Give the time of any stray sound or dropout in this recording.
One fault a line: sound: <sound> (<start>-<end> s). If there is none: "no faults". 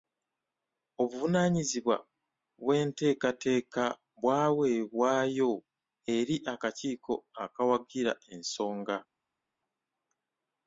no faults